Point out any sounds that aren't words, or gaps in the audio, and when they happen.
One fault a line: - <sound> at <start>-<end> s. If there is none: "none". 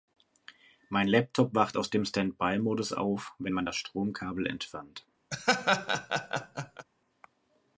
- laugh at 5.3-6.9 s